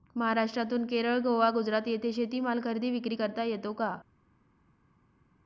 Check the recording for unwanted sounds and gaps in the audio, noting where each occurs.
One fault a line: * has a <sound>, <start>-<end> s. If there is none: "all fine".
all fine